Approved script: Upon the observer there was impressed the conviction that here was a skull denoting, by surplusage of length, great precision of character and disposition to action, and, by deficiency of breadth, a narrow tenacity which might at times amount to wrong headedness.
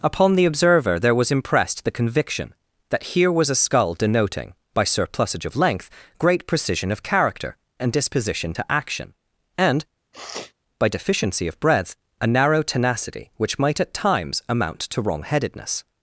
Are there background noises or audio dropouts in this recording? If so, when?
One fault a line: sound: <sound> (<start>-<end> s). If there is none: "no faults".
sound: sniff (10.1-10.5 s)